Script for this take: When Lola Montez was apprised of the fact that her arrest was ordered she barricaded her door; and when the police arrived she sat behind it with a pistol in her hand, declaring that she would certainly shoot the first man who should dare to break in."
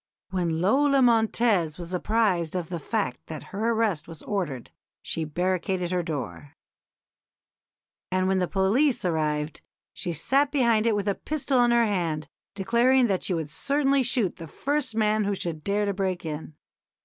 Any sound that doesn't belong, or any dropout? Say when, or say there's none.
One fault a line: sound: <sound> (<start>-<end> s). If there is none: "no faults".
no faults